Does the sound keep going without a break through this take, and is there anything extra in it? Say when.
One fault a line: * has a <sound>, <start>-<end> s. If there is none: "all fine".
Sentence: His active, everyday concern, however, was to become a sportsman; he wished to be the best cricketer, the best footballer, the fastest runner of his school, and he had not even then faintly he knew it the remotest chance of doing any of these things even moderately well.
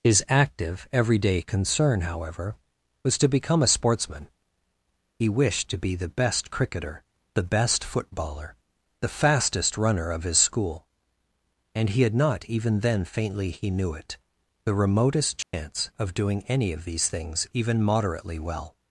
* has a dropout, 15.4-15.5 s